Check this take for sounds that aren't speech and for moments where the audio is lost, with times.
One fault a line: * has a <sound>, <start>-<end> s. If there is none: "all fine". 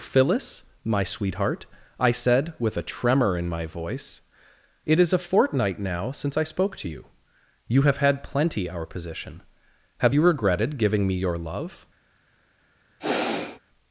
* has a sigh, 13.0-13.6 s